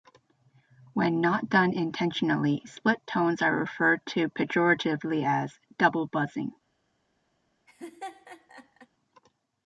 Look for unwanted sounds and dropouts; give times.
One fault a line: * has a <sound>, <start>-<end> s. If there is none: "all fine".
* has a laugh, 7.7-8.9 s